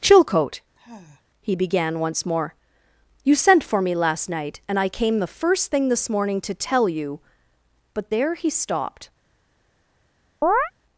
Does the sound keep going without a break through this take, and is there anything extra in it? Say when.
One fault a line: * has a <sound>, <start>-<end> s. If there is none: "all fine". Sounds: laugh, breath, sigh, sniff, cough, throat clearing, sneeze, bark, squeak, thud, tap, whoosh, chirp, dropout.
* has a sigh, 0.7-1.2 s
* has a chirp, 10.4-10.7 s